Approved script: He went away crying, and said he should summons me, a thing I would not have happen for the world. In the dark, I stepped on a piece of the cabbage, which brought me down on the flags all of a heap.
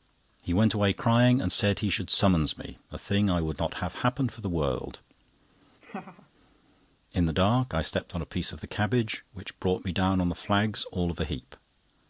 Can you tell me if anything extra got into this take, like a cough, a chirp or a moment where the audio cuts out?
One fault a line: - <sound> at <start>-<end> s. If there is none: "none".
- laugh at 5.8-6.3 s